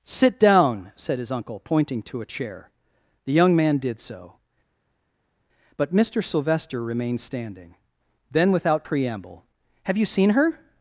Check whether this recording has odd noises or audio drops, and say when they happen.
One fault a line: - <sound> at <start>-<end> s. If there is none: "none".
none